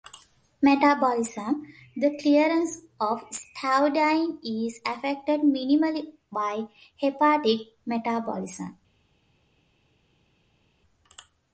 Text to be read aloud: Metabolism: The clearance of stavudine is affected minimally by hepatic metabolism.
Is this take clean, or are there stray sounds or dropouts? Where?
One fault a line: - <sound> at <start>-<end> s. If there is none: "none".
none